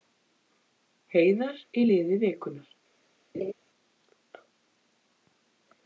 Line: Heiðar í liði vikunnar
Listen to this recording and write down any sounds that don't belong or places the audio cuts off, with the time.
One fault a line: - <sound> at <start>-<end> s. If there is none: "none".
- laugh at 3.3-3.5 s